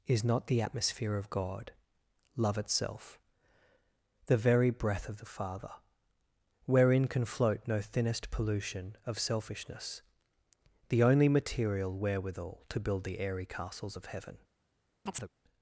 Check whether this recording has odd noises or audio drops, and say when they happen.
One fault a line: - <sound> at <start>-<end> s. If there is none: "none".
- chirp at 15.1-15.3 s